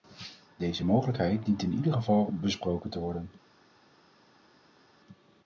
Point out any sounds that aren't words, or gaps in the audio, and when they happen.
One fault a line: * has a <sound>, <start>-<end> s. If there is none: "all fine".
all fine